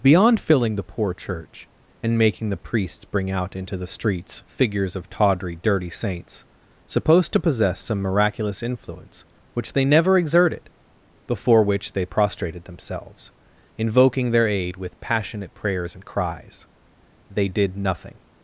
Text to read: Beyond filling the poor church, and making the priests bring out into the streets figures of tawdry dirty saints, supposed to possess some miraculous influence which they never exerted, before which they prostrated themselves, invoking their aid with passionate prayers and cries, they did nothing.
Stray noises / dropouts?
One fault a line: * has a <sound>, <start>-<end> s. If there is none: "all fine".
all fine